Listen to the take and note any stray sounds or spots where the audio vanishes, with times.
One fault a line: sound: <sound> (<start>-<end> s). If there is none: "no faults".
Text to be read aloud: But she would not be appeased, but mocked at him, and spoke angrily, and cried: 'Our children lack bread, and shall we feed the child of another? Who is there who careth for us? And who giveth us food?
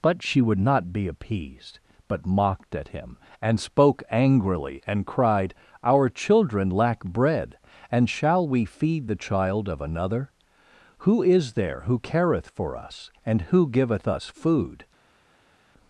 no faults